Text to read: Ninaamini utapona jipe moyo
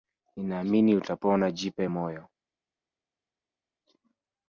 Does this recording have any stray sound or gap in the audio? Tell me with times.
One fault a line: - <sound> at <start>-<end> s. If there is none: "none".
none